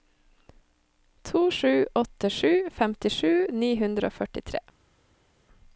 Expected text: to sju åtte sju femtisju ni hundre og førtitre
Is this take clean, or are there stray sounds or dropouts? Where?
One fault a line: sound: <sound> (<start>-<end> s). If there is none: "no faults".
no faults